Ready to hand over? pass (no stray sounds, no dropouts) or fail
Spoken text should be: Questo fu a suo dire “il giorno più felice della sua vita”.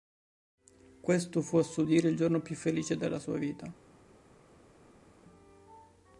pass